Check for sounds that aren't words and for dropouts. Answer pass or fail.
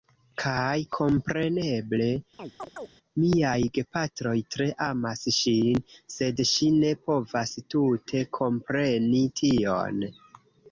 fail